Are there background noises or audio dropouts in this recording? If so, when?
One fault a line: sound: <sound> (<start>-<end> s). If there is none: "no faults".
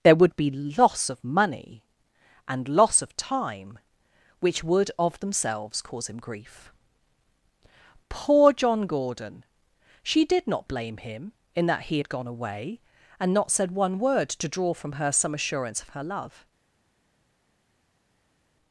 no faults